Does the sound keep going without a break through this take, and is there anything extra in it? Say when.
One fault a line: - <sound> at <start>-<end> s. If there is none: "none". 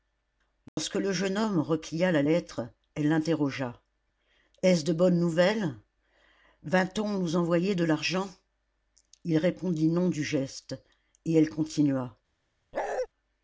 - dropout at 0.7-0.8 s
- bark at 12.7-13.1 s